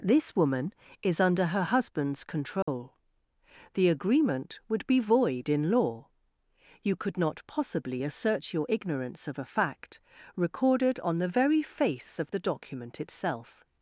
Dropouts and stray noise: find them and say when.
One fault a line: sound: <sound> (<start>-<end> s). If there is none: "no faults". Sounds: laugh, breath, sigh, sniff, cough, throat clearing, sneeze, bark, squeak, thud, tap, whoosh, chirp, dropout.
sound: dropout (2.6-2.7 s)